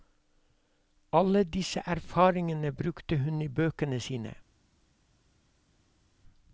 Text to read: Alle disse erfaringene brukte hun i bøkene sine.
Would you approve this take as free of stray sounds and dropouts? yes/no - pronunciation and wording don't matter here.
yes